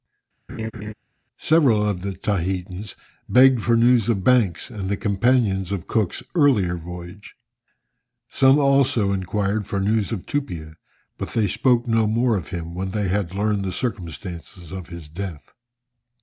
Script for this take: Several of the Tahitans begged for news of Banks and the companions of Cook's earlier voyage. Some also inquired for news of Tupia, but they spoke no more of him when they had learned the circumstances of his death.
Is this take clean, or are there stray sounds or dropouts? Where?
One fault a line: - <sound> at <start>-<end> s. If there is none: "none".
- laugh at 0.5-0.9 s